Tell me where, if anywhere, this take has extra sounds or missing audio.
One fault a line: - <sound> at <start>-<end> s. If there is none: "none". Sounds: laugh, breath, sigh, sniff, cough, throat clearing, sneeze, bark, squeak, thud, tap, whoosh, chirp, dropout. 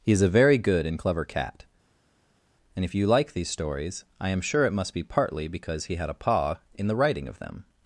none